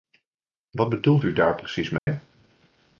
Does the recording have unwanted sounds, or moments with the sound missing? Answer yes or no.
yes